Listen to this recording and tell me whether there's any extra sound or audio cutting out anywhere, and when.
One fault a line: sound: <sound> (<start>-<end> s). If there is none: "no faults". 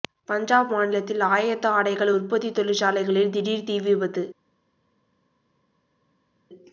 no faults